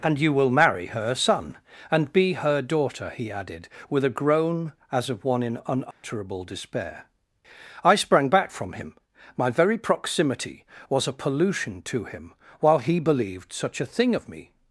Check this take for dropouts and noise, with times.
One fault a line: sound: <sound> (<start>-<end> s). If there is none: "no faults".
sound: dropout (5.9-6.0 s)